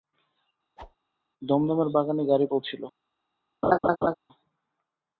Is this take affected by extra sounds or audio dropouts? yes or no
yes